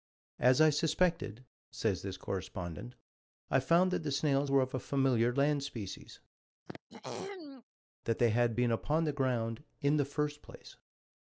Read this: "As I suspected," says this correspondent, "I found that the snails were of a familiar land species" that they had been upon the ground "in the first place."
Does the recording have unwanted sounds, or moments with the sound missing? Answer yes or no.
yes